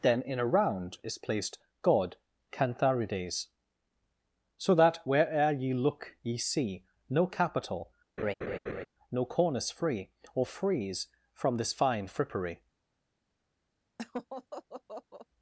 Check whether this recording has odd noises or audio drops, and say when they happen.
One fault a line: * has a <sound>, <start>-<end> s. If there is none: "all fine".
* has a laugh, 8.2-8.9 s
* has a laugh, 14.0-15.3 s